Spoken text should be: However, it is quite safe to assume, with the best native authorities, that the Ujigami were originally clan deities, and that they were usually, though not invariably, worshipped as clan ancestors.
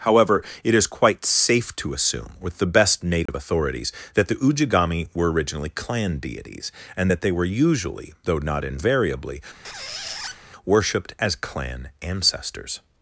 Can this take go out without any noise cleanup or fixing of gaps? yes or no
no